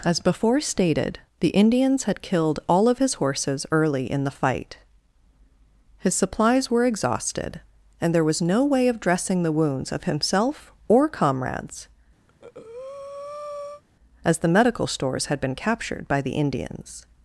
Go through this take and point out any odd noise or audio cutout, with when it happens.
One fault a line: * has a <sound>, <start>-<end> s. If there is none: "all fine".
* has a breath, 12.3-13.8 s